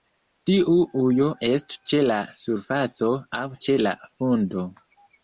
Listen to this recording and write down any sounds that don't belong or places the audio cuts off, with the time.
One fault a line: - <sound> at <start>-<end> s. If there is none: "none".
none